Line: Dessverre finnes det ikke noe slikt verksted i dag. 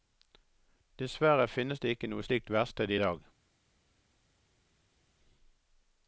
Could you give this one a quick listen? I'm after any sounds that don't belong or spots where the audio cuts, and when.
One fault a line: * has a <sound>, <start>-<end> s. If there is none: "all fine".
all fine